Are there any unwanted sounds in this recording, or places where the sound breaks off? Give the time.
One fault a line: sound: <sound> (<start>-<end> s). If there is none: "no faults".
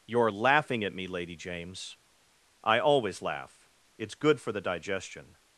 no faults